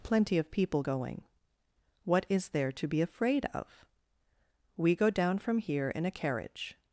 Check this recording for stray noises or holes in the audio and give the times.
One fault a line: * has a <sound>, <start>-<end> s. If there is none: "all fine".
all fine